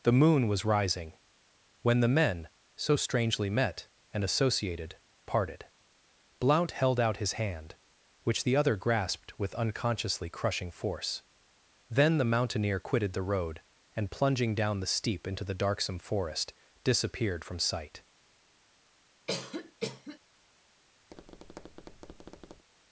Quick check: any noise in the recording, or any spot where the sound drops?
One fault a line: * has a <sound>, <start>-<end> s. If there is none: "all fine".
* has a cough, 19.3-20.2 s
* has a tap, 21.1-22.6 s